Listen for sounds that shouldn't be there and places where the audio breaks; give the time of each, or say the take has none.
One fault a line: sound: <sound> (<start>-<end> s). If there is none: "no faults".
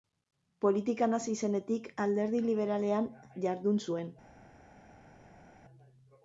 no faults